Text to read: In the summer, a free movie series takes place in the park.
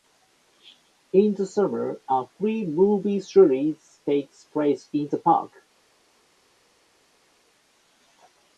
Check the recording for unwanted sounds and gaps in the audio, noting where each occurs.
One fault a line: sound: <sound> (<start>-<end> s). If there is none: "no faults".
no faults